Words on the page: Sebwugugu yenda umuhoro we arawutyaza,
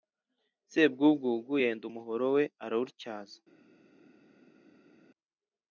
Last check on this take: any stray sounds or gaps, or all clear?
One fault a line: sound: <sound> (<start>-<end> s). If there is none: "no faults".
no faults